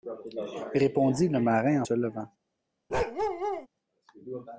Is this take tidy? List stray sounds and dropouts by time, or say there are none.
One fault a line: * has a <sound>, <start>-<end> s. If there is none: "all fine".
* has a bark, 2.9-3.7 s